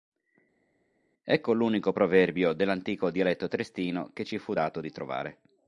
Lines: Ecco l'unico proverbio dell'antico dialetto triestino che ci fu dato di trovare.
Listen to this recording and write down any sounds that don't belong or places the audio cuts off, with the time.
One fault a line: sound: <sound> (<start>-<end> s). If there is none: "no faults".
no faults